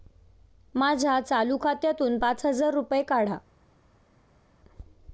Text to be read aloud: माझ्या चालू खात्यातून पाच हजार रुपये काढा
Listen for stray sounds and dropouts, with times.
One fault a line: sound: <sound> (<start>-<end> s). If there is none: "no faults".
no faults